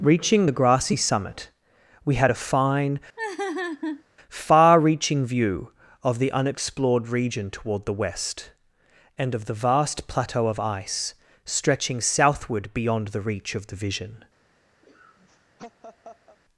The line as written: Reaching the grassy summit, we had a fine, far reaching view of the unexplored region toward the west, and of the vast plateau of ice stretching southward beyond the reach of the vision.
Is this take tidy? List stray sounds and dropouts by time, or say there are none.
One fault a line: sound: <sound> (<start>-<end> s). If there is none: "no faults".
sound: laugh (3.2-4.0 s)
sound: laugh (14.8-16.4 s)